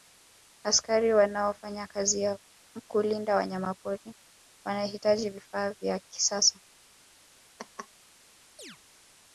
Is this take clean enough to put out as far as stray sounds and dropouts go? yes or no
no